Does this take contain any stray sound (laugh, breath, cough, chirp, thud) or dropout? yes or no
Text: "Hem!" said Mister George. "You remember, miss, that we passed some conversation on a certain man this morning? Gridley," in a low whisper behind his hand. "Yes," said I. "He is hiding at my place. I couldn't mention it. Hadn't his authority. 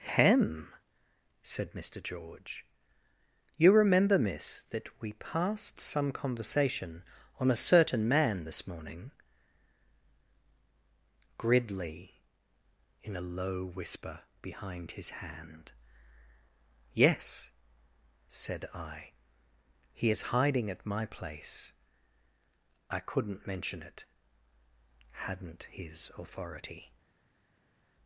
no